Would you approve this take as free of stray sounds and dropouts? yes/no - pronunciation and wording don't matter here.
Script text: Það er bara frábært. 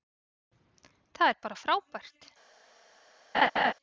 no